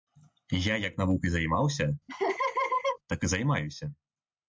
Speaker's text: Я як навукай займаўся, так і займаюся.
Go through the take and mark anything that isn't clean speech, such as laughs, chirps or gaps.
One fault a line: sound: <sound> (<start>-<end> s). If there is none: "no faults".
sound: laugh (2.1-3.0 s)